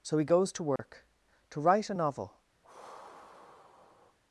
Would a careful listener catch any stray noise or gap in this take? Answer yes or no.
yes